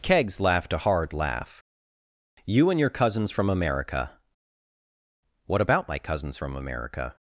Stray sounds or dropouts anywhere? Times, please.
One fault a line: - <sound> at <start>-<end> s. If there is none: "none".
none